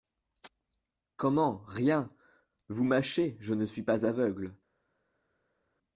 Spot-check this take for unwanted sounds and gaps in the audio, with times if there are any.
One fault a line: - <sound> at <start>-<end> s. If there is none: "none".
none